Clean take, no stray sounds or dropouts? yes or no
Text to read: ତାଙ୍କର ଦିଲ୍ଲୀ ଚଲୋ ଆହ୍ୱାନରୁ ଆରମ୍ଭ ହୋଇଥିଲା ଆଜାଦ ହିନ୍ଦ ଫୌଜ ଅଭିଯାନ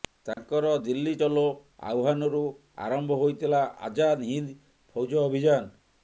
no